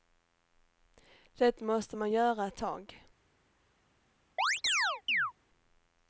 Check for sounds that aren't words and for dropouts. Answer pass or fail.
fail